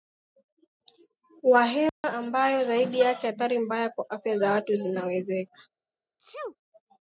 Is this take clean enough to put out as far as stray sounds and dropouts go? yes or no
no